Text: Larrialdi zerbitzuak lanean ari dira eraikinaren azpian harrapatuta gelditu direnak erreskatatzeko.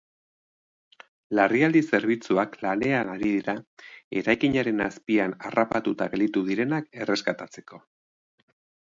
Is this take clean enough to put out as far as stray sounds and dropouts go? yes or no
yes